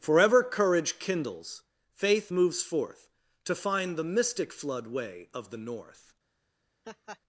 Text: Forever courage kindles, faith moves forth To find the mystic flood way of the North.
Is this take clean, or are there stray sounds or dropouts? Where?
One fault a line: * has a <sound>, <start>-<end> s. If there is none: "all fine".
* has a laugh, 6.8-7.2 s